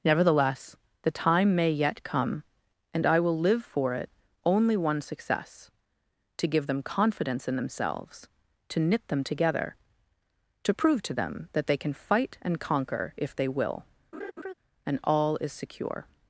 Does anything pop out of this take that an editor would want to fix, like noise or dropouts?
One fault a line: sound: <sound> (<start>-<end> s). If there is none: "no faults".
sound: laugh (14.1-14.5 s)